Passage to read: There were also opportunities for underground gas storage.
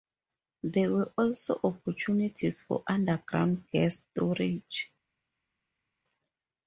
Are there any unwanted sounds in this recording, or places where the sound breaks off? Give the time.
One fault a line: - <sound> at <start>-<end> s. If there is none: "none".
none